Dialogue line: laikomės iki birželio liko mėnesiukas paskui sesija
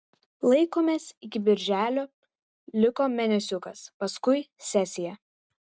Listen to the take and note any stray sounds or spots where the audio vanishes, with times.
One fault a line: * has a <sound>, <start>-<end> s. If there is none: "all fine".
all fine